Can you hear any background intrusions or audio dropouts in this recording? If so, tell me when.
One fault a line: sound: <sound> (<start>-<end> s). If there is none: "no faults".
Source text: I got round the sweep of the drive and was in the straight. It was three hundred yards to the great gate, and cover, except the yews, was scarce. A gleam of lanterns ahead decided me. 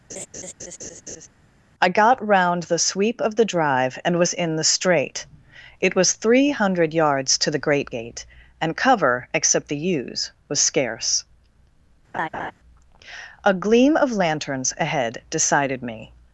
sound: laugh (0.1-1.3 s)
sound: laugh (12.1-12.5 s)